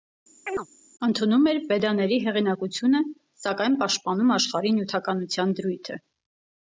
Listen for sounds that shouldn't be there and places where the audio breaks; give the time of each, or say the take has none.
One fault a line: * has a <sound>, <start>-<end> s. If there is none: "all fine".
* has a chirp, 0.5-0.7 s